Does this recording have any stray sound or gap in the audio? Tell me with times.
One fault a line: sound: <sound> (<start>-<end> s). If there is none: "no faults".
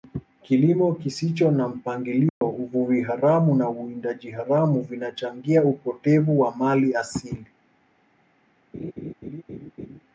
sound: dropout (2.3-2.4 s)
sound: laugh (8.7-10.0 s)